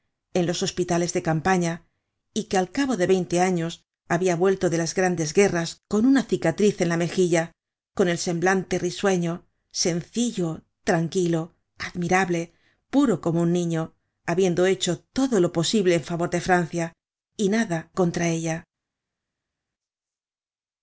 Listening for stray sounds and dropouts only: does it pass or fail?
pass